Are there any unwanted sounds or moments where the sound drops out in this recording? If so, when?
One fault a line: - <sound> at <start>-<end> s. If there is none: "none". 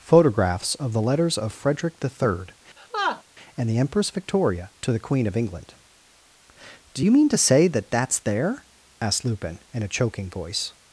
- laugh at 2.8-3.2 s